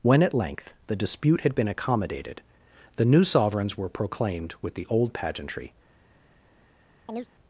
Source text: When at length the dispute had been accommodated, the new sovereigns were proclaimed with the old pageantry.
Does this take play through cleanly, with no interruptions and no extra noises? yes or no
no